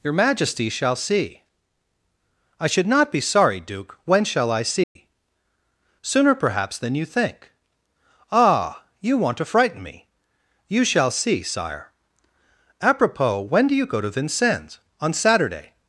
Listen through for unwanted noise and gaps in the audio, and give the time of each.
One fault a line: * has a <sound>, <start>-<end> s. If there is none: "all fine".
* has a dropout, 4.8-5.0 s